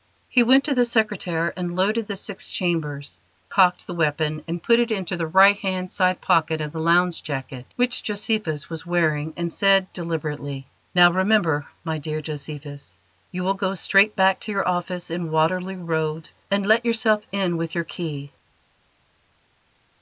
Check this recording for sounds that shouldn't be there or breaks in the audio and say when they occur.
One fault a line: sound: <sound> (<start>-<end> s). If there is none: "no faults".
no faults